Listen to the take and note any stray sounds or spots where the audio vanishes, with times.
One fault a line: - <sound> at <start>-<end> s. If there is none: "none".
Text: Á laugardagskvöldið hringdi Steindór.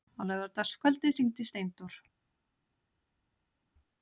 none